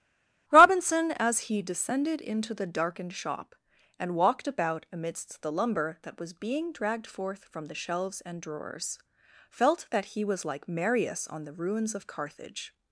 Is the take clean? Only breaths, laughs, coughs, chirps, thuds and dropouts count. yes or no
yes